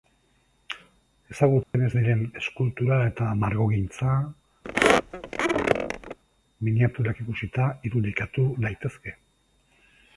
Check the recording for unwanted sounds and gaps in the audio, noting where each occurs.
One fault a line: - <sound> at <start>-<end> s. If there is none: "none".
- dropout at 1.6-1.7 s
- squeak at 4.6-6.2 s